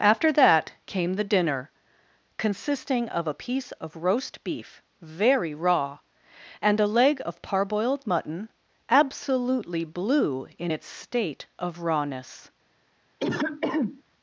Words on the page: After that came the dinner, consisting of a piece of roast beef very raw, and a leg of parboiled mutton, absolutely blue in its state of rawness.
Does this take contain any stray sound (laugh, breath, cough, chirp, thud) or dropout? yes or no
yes